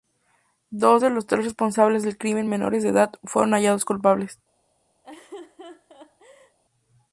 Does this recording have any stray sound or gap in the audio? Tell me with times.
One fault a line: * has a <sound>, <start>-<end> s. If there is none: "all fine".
* has a laugh, 5.0-6.6 s